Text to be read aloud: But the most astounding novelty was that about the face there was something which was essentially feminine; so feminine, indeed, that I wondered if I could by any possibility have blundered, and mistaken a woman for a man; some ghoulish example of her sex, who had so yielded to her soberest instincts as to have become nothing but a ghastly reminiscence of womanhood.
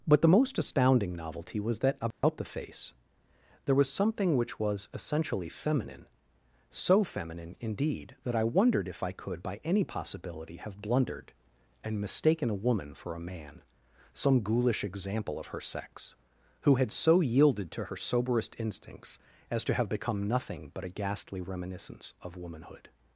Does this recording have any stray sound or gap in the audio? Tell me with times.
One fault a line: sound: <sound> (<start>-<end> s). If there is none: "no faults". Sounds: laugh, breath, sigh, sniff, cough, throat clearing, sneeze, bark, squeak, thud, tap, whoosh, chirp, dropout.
sound: dropout (2.1-2.2 s)